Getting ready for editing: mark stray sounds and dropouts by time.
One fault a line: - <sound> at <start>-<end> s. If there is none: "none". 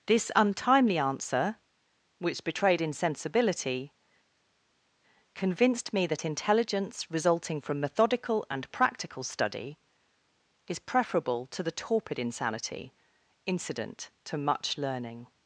none